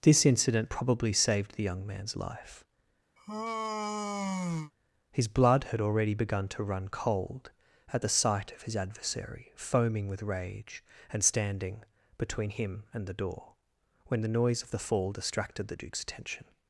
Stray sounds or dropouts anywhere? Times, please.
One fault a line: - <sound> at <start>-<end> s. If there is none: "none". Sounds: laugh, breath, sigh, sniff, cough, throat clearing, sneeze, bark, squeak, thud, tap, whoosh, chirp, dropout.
- sigh at 3.2-4.7 s